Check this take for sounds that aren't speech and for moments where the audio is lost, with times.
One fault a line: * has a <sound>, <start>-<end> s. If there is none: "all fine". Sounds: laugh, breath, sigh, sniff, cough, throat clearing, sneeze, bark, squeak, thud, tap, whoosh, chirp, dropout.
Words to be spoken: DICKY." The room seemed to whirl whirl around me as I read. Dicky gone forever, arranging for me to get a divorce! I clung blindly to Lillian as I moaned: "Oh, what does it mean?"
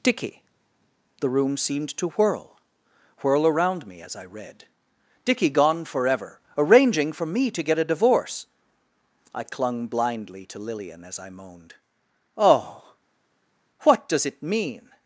all fine